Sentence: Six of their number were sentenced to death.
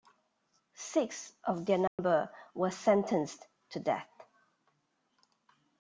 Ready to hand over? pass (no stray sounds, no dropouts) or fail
fail